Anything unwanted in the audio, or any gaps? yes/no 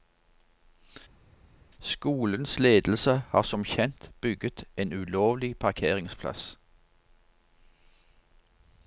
no